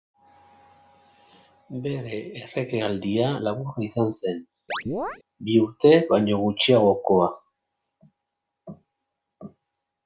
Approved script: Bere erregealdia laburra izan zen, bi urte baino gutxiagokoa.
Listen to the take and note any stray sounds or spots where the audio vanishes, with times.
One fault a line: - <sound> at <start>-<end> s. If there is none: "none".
- chirp at 4.7-5.2 s